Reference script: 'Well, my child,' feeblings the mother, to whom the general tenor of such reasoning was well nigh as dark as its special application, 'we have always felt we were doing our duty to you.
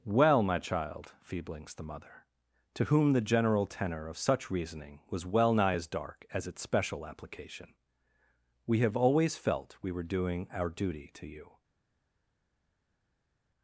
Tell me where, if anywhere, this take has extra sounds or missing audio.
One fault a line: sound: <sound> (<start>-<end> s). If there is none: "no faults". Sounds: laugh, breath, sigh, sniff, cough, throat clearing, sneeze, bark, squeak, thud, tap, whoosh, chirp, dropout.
no faults